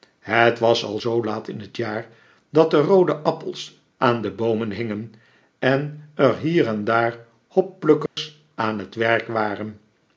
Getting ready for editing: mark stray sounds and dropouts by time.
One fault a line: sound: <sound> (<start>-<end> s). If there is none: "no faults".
sound: dropout (8.1-8.2 s)